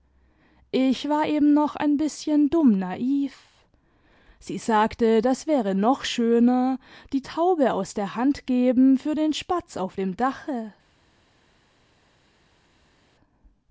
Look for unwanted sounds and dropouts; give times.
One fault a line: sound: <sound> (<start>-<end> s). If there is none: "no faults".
no faults